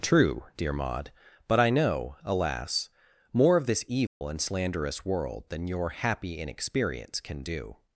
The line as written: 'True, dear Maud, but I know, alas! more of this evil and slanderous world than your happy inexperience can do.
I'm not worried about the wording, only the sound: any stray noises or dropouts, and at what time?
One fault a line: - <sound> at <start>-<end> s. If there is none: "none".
- dropout at 4.1-4.2 s